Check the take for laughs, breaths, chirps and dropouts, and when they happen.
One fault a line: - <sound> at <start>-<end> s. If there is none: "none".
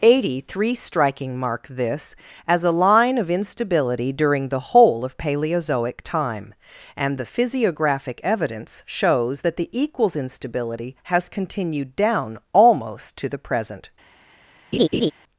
- laugh at 14.7-15.1 s